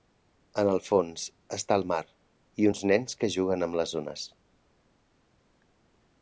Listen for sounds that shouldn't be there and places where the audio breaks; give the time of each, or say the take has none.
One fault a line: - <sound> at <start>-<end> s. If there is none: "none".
none